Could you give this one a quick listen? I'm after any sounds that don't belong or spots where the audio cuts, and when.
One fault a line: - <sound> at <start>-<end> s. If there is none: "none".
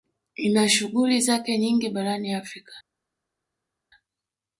none